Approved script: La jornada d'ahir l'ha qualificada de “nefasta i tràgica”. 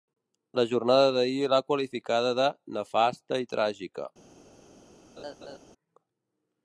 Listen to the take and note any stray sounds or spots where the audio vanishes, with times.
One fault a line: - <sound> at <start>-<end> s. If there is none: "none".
- laugh at 5.2-5.6 s